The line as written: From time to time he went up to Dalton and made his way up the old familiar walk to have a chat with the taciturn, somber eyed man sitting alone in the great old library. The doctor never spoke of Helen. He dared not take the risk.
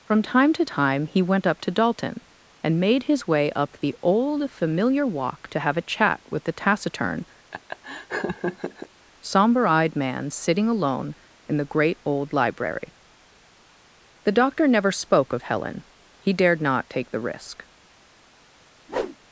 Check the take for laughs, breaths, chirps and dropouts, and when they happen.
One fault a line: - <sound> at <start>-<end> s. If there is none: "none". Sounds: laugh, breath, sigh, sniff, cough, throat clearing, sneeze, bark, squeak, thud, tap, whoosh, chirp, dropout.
- laugh at 7.5-8.9 s
- whoosh at 18.9-19.2 s